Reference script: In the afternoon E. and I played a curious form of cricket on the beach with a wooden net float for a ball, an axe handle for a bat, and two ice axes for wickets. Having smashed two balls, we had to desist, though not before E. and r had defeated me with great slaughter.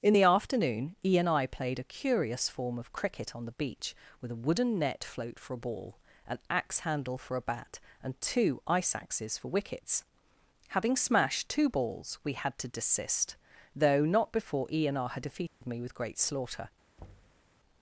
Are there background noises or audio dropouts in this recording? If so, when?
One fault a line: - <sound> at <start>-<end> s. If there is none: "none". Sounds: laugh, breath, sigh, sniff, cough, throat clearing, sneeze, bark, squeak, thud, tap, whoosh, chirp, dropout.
- dropout at 15.5-15.6 s
- thud at 17.0-17.5 s